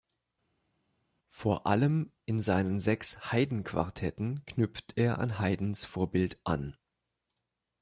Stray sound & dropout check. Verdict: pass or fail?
pass